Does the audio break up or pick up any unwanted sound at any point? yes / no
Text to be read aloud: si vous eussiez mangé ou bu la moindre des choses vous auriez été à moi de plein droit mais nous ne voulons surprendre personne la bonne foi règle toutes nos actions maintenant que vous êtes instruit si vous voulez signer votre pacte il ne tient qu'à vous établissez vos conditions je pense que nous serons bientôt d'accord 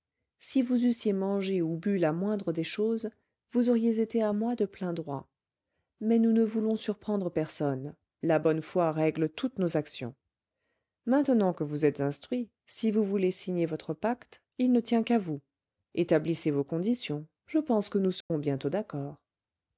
yes